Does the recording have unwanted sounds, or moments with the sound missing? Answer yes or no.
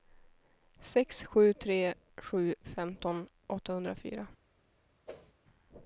yes